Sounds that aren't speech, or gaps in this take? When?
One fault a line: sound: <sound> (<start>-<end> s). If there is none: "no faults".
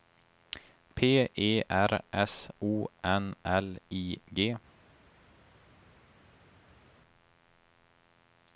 no faults